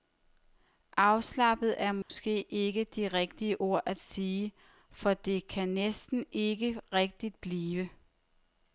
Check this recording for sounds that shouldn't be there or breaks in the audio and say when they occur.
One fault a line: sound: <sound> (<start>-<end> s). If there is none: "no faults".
sound: dropout (2.0-2.1 s)